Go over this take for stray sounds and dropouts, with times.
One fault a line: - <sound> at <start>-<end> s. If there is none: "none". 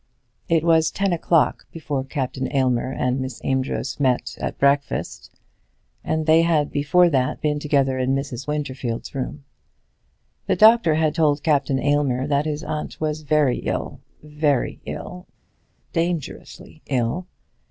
none